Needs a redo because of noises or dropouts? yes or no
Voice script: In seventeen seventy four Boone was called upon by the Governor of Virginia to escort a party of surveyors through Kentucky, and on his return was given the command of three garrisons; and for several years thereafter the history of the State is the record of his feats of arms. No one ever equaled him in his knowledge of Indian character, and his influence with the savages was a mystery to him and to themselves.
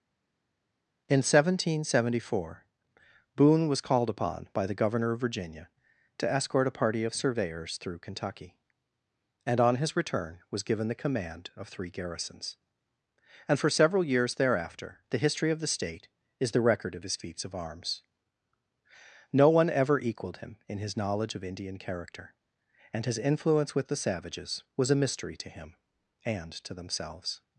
no